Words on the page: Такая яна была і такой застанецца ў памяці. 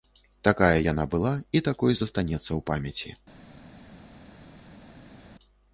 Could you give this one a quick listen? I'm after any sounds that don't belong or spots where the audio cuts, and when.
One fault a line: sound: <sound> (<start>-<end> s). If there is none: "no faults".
no faults